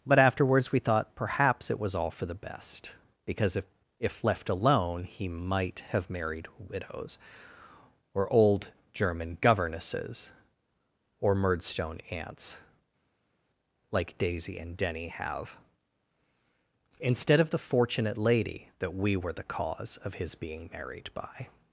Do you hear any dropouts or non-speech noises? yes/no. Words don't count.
no